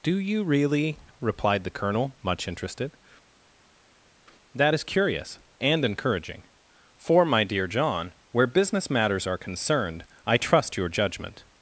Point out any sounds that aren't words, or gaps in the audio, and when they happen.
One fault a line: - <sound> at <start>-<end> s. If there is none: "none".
none